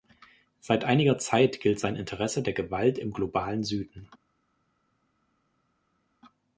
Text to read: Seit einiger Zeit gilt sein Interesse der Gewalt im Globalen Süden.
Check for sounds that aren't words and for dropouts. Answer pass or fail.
pass